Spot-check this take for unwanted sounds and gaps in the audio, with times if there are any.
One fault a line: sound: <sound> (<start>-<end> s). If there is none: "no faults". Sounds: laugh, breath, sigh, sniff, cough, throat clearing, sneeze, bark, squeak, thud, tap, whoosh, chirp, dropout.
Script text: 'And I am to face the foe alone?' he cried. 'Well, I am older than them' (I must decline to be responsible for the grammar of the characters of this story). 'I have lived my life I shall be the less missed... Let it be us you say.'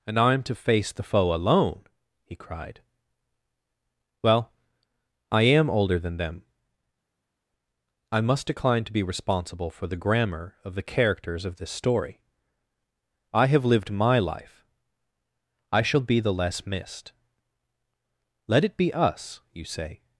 no faults